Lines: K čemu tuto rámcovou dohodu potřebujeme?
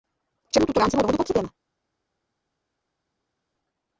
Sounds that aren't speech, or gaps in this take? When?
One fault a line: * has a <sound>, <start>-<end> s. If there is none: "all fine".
all fine